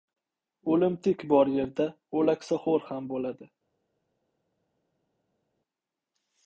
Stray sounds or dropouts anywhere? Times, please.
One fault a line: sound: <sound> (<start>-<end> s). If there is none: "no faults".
no faults